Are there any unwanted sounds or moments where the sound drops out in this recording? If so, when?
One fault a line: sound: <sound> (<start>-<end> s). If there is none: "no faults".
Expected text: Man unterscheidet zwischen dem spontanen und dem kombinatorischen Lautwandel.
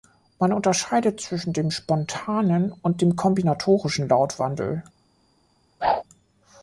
sound: whoosh (5.8-6.0 s)